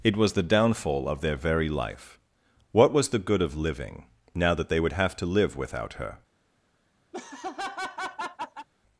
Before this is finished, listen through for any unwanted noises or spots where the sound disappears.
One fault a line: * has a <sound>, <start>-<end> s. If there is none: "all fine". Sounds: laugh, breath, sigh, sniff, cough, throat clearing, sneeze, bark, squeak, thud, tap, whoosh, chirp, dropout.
* has a laugh, 7.1-8.7 s